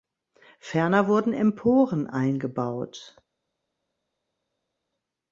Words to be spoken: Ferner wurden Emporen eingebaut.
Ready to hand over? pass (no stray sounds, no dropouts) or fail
pass